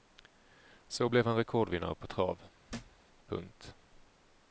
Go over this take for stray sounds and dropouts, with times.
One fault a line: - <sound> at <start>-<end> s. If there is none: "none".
- thud at 2.7-3.0 s